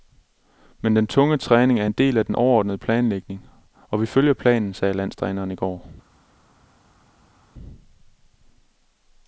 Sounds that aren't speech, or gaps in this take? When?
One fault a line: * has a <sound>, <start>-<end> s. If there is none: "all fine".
all fine